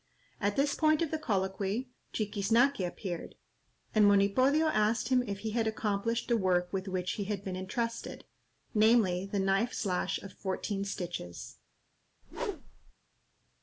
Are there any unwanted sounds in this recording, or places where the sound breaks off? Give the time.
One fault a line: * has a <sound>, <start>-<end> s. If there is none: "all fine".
* has a whoosh, 12.2-12.9 s